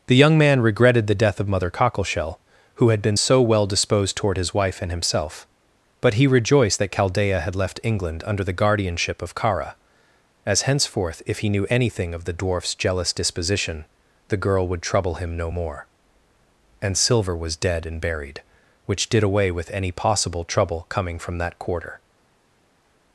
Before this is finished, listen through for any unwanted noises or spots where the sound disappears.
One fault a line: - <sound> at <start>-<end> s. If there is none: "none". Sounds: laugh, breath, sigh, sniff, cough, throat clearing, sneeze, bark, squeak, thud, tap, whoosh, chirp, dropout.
none